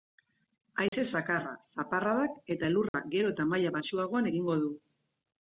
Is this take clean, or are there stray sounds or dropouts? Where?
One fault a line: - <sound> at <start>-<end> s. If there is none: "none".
- dropout at 0.9-0.9 s
- dropout at 2.9-2.9 s